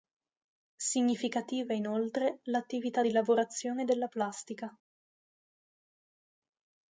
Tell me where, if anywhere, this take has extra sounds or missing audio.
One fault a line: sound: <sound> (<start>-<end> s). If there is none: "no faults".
no faults